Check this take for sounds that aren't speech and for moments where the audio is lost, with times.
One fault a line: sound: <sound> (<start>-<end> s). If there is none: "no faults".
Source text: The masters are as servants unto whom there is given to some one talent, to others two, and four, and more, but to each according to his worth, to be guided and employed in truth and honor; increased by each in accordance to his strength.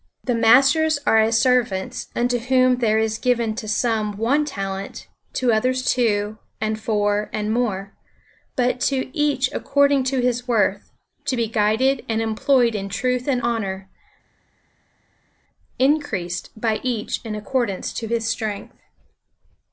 no faults